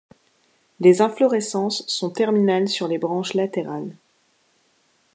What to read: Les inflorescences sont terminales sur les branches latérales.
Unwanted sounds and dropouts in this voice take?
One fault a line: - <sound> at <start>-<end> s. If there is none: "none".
none